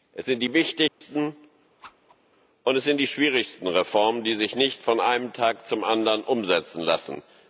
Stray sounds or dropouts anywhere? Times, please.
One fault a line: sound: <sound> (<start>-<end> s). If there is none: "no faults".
sound: dropout (0.9-1.0 s)
sound: whoosh (1.8-2.2 s)